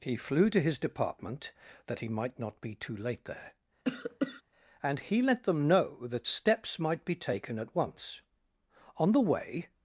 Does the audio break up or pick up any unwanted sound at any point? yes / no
yes